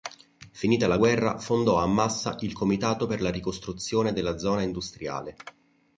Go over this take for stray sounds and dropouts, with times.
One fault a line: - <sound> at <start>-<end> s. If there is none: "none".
none